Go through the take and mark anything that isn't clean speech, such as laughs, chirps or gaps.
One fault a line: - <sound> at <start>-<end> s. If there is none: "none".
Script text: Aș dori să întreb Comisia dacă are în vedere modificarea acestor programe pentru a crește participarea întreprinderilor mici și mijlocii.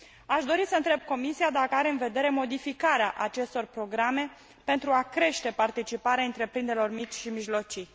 none